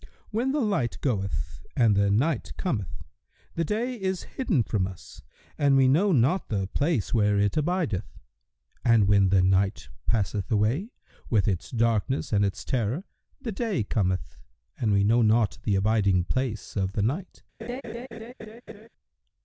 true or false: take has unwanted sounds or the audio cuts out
true